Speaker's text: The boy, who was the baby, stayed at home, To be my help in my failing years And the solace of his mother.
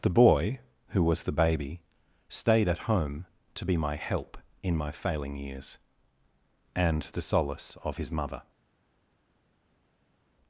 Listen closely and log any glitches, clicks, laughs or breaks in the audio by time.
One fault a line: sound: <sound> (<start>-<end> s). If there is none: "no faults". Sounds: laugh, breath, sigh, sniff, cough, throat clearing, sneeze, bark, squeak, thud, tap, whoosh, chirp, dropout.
no faults